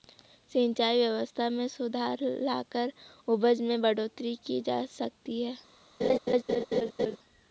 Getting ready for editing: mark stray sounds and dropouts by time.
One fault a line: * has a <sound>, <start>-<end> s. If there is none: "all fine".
* has a laugh, 6.0-7.2 s